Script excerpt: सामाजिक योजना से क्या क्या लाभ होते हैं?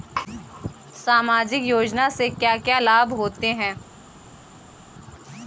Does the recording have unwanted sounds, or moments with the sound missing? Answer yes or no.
no